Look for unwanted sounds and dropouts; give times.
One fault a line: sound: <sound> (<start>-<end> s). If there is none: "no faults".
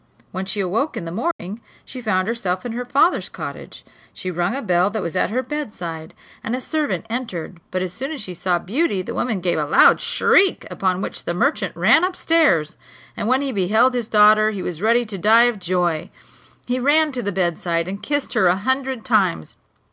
sound: dropout (1.3-1.4 s)